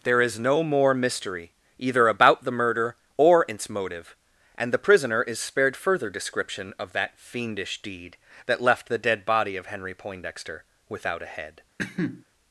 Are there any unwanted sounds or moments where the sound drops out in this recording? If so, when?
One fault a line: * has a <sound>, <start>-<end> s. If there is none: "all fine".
* has a cough, 11.8-12.2 s